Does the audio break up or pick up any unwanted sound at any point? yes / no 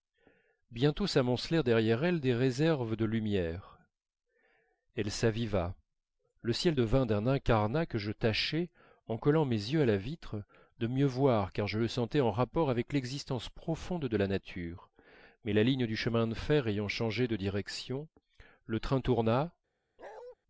yes